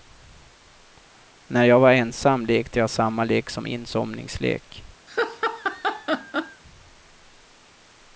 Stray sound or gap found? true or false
true